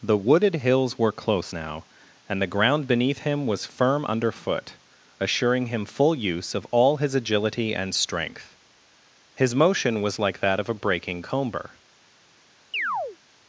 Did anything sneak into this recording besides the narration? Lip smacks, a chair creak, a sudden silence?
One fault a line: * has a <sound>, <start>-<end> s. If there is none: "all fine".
* has a chirp, 12.7-13.2 s